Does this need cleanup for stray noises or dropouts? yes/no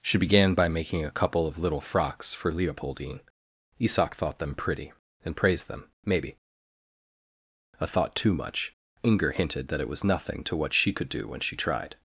no